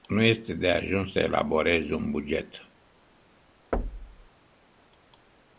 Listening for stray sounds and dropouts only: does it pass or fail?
fail